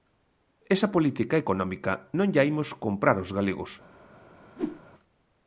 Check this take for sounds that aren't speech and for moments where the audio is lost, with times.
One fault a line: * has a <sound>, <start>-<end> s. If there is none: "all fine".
* has a whoosh, 4.6-4.8 s